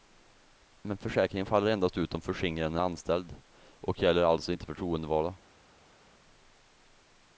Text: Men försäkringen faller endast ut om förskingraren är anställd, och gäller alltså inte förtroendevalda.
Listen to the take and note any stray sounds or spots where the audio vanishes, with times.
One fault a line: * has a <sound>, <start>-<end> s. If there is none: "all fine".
all fine